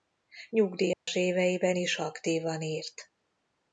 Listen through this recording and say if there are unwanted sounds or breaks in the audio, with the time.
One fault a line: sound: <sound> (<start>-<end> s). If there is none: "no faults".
sound: dropout (0.9-1.1 s)